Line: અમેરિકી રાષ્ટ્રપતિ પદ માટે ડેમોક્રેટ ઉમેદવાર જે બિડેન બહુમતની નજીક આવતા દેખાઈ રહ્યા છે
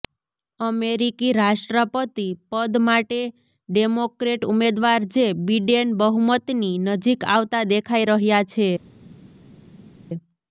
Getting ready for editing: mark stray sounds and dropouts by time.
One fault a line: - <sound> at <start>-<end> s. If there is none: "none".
none